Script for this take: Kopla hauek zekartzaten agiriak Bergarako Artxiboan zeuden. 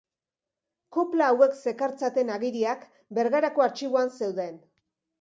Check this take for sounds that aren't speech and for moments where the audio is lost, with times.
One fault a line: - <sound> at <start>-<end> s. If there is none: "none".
none